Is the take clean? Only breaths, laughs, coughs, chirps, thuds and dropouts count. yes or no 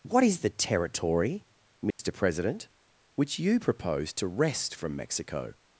no